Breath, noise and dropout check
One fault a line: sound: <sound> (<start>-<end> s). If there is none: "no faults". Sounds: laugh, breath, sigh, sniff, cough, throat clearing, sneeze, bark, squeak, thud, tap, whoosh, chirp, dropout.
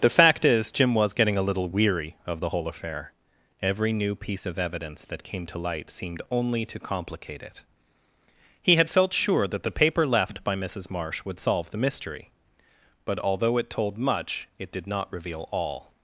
no faults